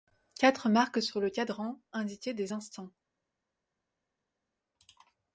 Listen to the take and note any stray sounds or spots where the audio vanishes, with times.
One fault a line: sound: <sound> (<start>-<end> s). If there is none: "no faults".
no faults